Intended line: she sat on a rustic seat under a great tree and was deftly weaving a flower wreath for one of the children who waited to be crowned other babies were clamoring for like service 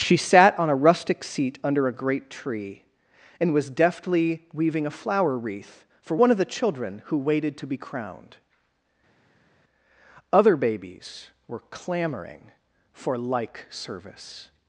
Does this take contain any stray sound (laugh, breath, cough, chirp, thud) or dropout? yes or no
no